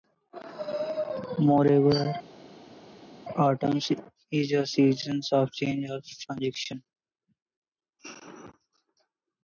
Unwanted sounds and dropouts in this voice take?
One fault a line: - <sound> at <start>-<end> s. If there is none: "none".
none